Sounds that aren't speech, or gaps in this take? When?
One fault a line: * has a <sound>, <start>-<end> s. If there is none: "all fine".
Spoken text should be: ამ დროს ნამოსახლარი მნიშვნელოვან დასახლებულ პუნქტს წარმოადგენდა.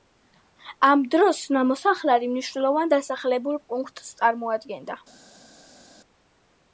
all fine